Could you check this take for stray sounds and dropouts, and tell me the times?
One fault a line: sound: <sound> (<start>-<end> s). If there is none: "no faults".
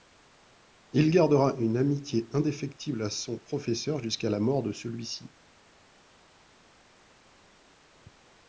no faults